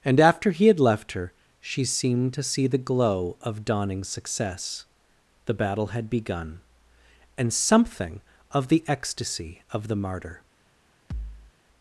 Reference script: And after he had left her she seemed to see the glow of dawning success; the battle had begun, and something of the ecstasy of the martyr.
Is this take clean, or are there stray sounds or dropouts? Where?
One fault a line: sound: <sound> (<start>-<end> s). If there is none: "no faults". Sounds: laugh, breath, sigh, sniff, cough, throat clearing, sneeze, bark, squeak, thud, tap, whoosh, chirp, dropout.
sound: thud (11.1-11.5 s)